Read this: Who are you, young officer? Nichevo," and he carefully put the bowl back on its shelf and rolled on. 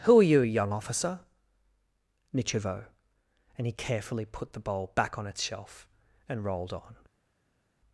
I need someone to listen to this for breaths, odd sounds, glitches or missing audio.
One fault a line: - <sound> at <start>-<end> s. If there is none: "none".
none